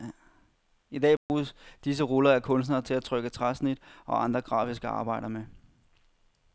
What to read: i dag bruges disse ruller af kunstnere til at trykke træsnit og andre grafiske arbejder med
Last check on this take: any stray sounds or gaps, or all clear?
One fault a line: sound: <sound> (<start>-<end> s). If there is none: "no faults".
sound: dropout (1.2-1.3 s)